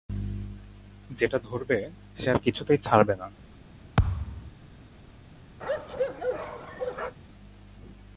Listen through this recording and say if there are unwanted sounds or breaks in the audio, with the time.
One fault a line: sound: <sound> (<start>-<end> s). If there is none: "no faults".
sound: thud (4.0-4.5 s)
sound: bark (5.6-7.2 s)